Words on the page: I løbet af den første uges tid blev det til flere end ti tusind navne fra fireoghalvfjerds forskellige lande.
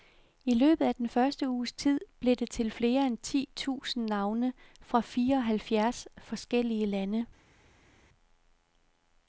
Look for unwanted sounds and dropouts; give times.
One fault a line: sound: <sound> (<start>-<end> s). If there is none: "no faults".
no faults